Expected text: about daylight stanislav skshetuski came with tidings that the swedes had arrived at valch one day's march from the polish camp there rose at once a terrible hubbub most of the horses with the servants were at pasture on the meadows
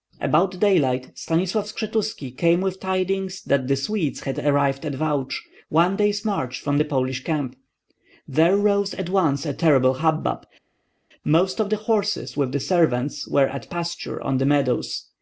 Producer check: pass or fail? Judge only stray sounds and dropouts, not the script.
pass